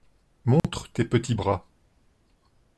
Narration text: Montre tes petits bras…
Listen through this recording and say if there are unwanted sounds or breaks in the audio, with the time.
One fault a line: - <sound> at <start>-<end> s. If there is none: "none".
- dropout at 0.6-0.6 s